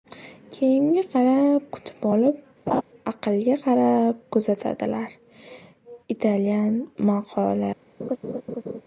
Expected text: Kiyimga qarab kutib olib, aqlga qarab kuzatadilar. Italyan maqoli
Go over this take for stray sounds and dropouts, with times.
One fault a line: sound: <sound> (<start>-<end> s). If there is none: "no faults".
sound: laugh (2.7-2.8 s)
sound: laugh (8.0-8.8 s)